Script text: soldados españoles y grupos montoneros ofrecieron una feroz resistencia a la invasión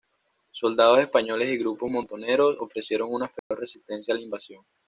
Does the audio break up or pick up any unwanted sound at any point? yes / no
yes